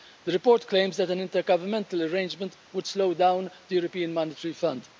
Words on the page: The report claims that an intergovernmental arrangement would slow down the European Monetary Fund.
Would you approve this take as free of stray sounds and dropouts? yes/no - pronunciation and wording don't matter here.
yes